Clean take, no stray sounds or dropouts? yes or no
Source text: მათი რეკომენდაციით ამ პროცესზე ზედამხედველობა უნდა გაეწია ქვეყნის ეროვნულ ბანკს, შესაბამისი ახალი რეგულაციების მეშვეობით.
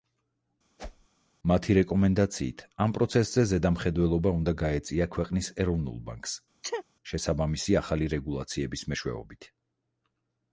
no